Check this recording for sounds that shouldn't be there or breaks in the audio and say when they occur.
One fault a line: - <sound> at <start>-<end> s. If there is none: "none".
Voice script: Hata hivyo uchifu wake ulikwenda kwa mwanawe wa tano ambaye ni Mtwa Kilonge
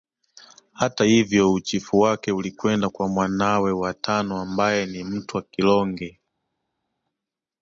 none